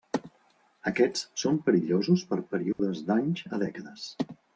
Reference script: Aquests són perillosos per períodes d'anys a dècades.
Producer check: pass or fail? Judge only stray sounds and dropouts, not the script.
fail